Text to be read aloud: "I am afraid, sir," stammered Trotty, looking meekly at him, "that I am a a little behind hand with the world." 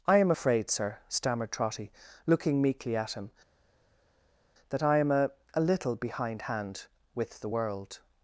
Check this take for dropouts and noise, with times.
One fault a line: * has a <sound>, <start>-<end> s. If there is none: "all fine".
all fine